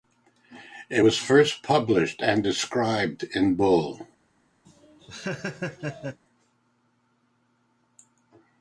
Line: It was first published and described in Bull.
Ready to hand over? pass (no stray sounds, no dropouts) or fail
fail